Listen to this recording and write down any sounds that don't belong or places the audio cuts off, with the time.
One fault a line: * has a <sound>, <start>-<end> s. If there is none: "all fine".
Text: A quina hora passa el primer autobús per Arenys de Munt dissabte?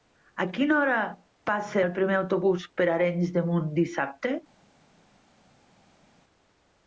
all fine